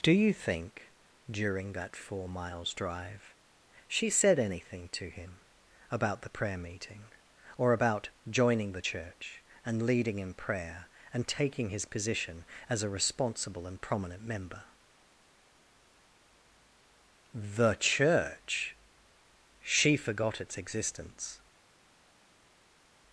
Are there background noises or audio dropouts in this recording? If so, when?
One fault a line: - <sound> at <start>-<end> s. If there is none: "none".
none